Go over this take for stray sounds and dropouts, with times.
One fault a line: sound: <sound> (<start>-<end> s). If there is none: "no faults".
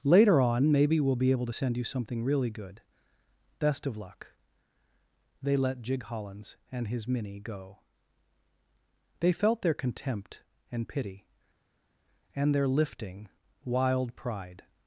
no faults